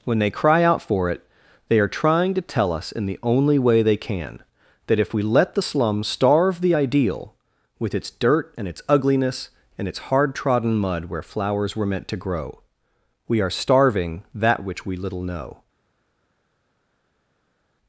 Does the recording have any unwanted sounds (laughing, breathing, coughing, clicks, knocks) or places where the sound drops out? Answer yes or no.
no